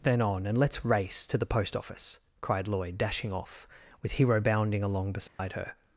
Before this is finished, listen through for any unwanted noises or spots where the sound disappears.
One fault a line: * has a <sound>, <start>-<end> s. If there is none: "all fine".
* has a dropout, 5.3-5.4 s